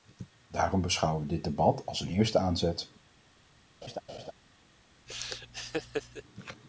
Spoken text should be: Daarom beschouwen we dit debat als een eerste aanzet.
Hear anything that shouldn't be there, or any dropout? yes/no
yes